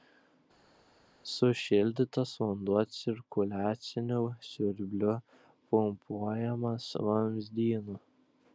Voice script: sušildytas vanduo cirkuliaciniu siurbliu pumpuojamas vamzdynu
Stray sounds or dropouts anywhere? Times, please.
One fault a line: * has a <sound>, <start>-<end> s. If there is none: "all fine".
all fine